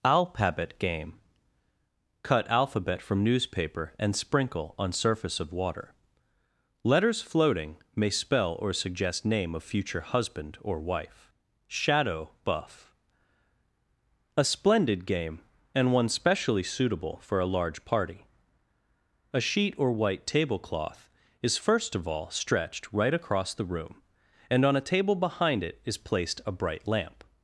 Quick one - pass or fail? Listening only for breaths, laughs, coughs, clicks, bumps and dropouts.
pass